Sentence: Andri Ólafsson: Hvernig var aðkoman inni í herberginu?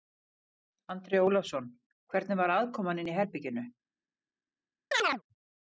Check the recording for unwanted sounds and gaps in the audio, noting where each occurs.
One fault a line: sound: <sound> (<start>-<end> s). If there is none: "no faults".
sound: chirp (4.9-5.2 s)